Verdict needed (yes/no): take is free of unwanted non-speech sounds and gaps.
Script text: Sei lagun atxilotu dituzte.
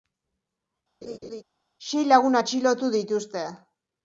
no